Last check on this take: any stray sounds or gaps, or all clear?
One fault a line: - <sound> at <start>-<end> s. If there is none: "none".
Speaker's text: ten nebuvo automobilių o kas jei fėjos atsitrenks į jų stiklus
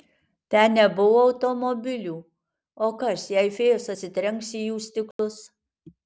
- dropout at 5.1-5.2 s